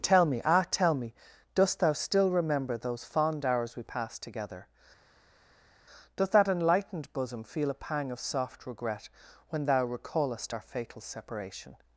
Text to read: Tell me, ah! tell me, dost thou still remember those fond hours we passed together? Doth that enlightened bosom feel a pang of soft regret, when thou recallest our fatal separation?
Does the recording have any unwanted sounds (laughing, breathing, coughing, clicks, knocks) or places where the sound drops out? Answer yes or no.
no